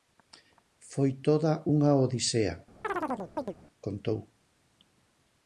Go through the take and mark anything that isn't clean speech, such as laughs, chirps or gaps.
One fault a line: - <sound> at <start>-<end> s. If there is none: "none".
- chirp at 2.8-3.5 s